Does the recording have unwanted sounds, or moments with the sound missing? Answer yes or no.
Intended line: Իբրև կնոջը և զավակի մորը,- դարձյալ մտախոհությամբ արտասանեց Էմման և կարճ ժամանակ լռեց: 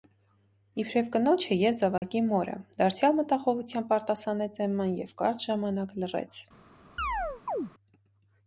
yes